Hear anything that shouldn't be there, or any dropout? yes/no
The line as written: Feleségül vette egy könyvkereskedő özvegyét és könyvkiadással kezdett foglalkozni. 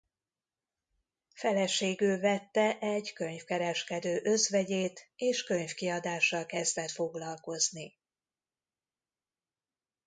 no